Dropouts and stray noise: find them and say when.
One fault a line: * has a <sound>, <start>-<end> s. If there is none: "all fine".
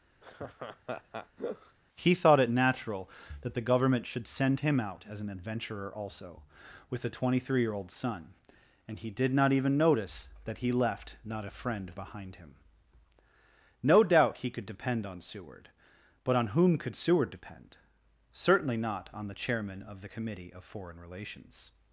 * has a laugh, 0.2-1.8 s